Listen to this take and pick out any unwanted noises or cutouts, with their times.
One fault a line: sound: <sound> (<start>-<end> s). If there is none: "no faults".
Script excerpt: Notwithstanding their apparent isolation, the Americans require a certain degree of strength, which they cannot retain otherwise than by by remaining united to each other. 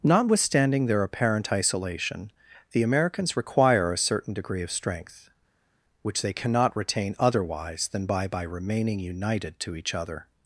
no faults